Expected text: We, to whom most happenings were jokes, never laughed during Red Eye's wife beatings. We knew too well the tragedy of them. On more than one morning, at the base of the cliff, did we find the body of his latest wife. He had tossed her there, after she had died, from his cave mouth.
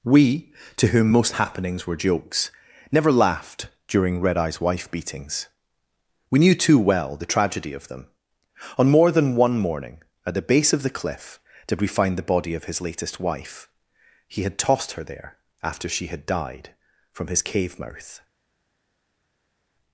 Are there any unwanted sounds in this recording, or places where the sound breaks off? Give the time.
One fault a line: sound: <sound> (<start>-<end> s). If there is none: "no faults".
no faults